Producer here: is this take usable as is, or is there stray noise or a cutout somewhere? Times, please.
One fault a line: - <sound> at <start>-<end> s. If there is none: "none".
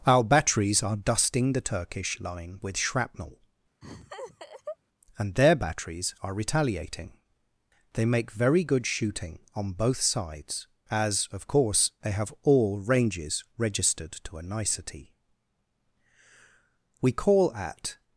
- laugh at 3.8-4.8 s